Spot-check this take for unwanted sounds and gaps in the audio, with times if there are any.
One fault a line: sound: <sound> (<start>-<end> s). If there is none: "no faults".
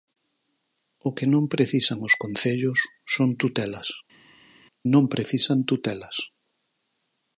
no faults